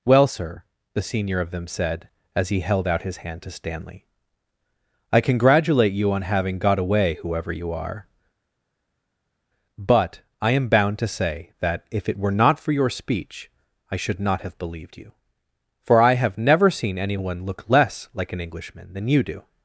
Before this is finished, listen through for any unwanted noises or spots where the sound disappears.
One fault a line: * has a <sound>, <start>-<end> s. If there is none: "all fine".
all fine